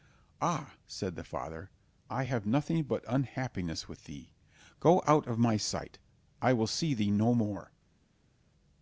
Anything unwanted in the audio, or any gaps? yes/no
no